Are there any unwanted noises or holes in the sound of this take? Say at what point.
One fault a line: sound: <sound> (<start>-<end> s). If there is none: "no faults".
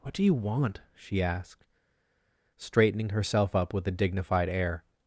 no faults